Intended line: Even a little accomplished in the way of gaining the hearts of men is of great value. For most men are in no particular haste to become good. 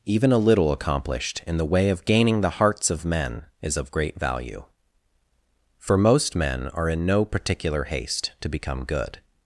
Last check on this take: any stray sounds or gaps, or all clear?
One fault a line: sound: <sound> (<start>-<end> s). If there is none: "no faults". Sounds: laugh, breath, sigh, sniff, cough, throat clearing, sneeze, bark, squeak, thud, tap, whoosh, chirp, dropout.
no faults